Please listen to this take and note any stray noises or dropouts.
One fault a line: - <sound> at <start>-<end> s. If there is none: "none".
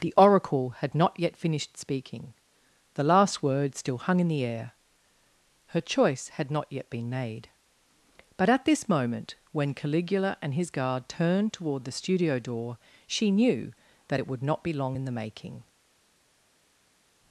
none